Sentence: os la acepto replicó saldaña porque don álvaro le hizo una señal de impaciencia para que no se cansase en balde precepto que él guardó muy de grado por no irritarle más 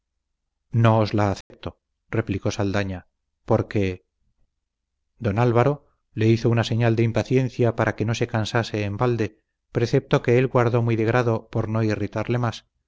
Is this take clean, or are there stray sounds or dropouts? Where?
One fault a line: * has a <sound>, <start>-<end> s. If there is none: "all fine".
* has a dropout, 1.4-1.5 s